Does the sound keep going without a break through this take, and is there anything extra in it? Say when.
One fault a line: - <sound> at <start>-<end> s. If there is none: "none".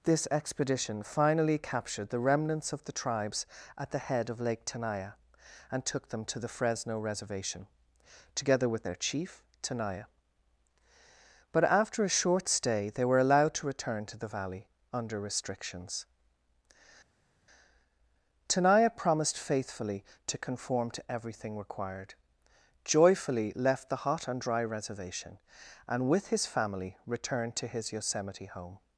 none